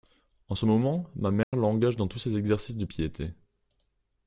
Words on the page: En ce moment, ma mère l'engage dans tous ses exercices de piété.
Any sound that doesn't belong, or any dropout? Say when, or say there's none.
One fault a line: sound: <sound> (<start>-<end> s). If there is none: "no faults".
sound: dropout (1.4-1.5 s)